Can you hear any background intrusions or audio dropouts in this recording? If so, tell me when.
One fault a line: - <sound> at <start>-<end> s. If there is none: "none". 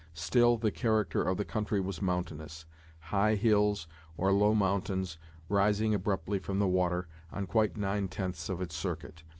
none